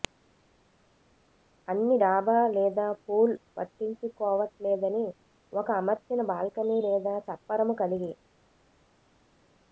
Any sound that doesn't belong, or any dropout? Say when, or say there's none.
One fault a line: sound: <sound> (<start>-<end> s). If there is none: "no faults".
no faults